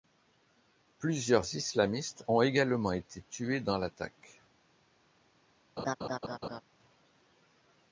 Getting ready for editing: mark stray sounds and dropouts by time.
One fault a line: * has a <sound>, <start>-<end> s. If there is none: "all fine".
* has a laugh, 5.8-6.6 s